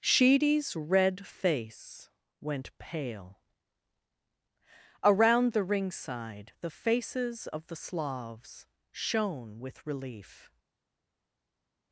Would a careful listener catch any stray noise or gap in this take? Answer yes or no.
no